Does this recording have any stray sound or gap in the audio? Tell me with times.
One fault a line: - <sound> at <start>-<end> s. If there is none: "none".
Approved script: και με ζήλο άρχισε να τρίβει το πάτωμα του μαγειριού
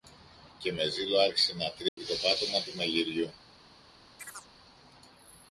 - dropout at 1.9-2.0 s
- chirp at 4.2-4.5 s